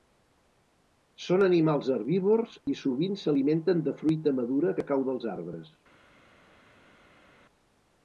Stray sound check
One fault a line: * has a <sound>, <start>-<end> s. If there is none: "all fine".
all fine